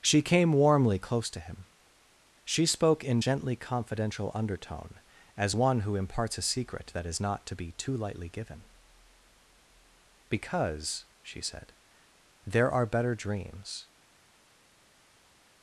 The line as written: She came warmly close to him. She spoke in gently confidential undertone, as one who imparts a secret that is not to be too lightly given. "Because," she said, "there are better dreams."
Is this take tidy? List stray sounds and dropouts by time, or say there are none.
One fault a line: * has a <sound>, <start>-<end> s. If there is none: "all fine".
all fine